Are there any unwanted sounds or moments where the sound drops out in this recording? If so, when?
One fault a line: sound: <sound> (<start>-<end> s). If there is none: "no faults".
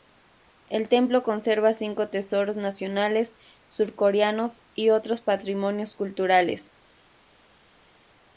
no faults